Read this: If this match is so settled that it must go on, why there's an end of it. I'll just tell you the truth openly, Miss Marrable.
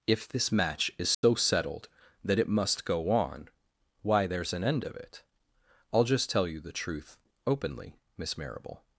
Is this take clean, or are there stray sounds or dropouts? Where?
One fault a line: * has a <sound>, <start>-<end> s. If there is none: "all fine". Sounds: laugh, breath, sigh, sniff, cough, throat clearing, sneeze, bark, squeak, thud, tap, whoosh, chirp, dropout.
* has a dropout, 1.1-1.2 s